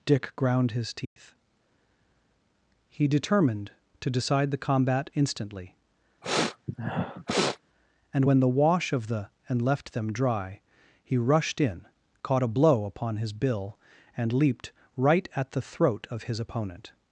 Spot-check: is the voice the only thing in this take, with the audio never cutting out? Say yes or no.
no